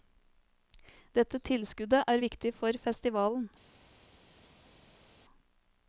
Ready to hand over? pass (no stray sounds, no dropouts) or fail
pass